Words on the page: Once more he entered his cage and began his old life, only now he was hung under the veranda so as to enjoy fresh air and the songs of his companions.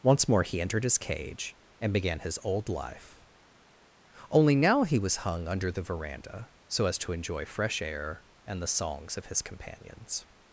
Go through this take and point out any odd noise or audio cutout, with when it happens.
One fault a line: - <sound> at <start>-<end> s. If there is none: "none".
none